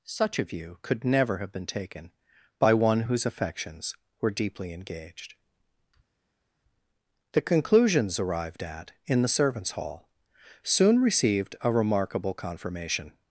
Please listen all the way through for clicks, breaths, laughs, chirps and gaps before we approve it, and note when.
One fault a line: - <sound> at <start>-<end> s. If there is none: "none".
none